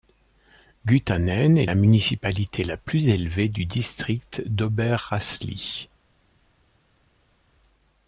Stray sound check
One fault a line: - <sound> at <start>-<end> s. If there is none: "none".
none